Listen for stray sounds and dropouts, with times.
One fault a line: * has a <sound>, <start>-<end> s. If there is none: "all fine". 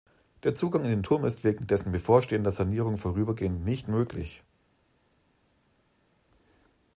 all fine